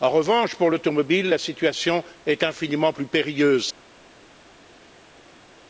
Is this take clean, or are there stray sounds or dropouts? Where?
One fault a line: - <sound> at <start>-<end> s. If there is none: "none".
none